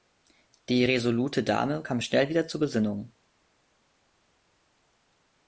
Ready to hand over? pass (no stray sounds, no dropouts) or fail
pass